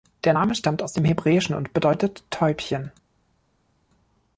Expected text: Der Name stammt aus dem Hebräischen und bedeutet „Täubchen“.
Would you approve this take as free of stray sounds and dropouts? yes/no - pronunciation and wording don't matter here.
yes